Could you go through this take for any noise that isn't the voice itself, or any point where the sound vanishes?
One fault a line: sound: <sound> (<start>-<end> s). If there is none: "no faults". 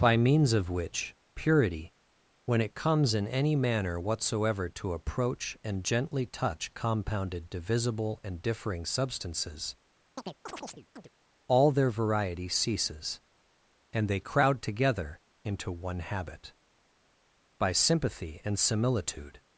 sound: chirp (10.2-11.1 s)